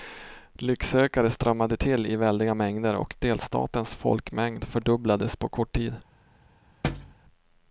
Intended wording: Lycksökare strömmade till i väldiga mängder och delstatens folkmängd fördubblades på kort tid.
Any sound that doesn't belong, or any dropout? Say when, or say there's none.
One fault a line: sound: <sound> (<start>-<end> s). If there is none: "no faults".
sound: thud (6.8-7.1 s)